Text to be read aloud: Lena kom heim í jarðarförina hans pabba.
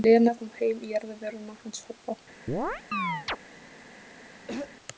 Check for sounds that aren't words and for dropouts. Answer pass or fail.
fail